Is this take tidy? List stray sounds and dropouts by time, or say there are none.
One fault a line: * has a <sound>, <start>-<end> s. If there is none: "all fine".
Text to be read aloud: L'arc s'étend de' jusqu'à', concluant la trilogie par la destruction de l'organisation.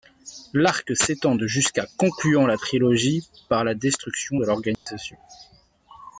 * has a dropout, 4.7-4.9 s